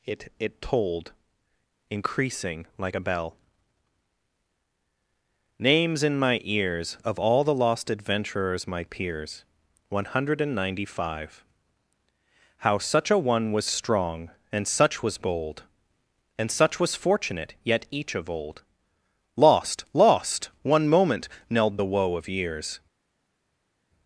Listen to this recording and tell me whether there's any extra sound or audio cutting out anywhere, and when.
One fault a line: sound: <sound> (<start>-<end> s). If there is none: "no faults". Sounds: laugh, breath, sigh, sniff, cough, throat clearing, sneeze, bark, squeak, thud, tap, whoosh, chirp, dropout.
no faults